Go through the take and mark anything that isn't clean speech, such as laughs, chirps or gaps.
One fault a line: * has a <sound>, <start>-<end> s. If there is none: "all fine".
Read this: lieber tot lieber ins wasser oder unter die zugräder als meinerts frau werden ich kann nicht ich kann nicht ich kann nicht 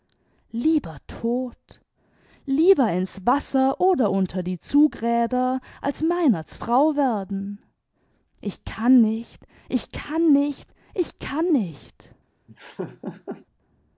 * has a laugh, 12.5-13.5 s